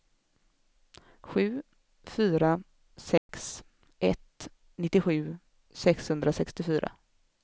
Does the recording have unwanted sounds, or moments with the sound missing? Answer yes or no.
yes